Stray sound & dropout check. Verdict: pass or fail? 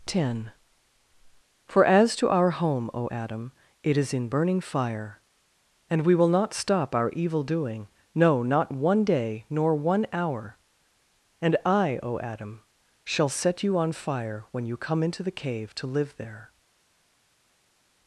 pass